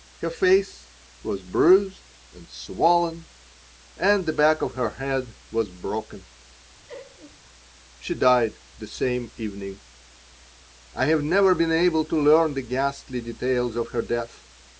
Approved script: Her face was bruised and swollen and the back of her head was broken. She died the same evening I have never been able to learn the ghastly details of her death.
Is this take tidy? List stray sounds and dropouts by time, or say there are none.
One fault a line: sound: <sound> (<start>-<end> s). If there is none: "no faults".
sound: laugh (6.9-7.4 s)